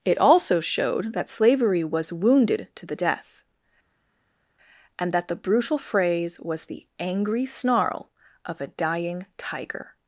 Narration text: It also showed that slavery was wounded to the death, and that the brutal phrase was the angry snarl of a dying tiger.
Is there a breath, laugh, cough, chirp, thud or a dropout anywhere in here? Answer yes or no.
no